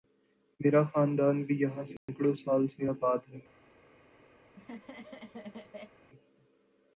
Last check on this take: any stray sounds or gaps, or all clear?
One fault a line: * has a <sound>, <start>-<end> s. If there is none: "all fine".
* has a dropout, 2.0-2.1 s
* has a laugh, 4.4-6.0 s